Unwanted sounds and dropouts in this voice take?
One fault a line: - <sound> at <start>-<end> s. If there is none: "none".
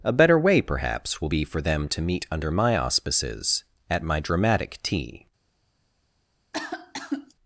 - cough at 6.5-7.3 s